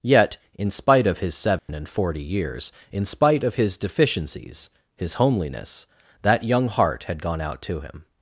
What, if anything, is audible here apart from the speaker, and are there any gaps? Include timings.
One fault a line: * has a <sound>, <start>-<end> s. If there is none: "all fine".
* has a dropout, 1.6-1.7 s